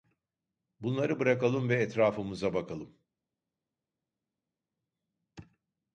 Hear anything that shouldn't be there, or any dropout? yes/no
no